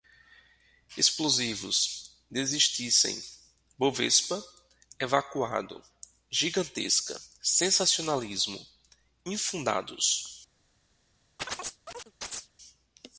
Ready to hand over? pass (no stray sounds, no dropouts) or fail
fail